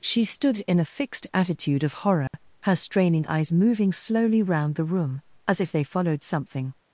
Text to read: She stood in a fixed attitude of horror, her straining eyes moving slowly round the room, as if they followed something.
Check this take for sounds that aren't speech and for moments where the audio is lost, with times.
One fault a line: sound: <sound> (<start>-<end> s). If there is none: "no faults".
sound: dropout (2.3-2.3 s)